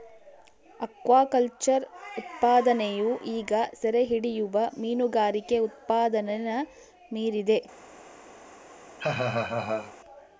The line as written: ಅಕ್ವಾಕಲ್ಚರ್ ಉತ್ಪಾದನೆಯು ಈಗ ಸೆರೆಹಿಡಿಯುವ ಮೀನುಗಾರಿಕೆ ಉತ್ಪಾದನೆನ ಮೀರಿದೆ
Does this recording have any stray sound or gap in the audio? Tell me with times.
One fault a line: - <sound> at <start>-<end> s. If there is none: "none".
- laugh at 9.0-9.9 s